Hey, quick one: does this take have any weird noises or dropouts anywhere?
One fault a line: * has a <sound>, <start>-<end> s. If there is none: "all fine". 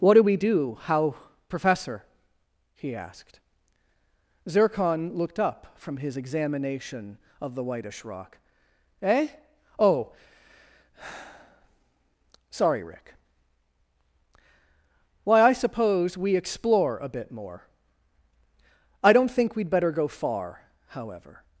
all fine